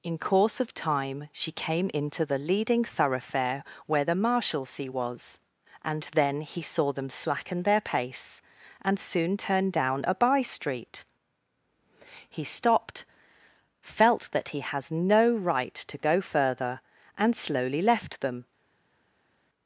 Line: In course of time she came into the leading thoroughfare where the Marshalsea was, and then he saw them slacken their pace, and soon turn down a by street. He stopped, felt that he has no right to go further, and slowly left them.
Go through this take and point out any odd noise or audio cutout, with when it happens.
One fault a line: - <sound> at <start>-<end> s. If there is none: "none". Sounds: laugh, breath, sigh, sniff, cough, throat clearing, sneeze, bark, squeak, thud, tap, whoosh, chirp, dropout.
none